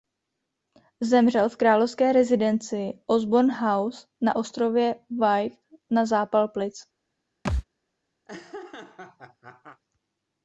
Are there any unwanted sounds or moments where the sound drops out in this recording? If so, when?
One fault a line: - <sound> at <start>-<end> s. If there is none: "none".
- thud at 7.4-7.6 s
- laugh at 8.3-9.8 s